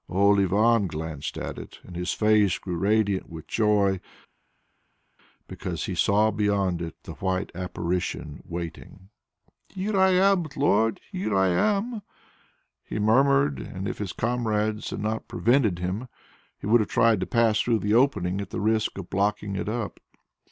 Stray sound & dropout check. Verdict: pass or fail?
pass